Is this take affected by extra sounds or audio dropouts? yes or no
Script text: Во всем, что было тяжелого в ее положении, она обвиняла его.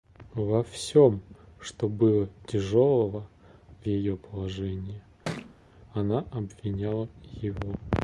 yes